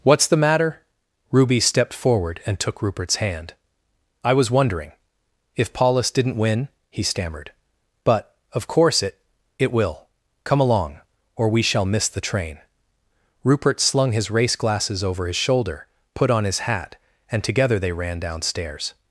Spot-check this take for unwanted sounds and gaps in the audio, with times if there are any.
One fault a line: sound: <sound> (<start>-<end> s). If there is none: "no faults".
no faults